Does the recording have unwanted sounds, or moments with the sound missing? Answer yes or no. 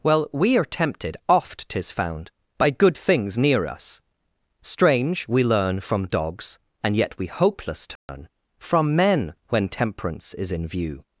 yes